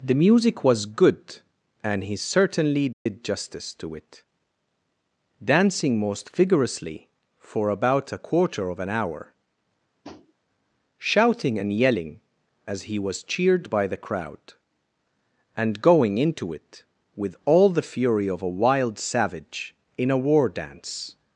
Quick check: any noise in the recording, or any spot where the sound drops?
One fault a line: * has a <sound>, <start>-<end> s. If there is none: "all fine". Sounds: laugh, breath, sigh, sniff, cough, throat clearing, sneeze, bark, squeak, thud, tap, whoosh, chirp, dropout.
* has a dropout, 2.9-3.1 s
* has a tap, 10.0-10.3 s